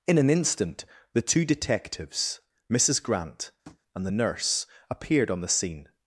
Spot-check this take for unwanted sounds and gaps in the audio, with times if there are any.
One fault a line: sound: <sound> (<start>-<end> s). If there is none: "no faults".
sound: tap (3.6-3.8 s)